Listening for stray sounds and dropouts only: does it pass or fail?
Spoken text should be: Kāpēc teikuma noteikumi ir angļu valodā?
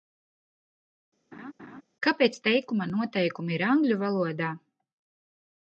fail